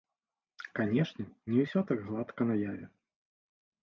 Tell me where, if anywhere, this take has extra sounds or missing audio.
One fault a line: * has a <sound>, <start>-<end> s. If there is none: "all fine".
all fine